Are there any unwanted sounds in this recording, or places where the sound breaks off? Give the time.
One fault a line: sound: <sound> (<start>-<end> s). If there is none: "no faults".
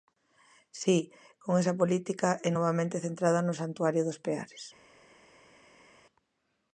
no faults